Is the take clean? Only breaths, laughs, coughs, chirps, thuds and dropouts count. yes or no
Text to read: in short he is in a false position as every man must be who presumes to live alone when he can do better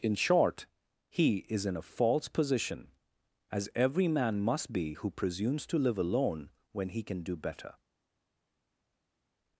yes